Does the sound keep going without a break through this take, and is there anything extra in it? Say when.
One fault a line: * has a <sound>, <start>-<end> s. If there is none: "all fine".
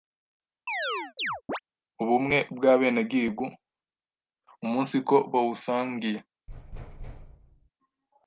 * has a chirp, 0.7-1.6 s
* has a thud, 6.5-7.7 s